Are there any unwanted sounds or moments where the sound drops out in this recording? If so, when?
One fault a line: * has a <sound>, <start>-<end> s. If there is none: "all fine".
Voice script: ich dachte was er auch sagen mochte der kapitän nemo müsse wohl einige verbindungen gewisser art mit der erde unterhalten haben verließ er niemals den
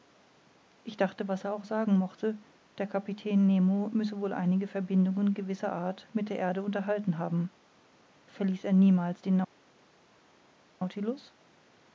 all fine